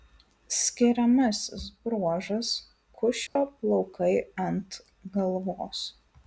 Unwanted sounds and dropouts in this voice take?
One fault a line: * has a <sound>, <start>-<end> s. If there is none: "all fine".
* has a dropout, 3.3-3.4 s